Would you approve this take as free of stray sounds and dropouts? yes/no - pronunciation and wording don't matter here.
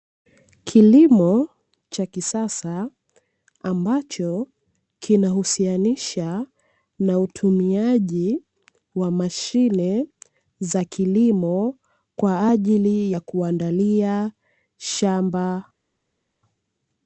yes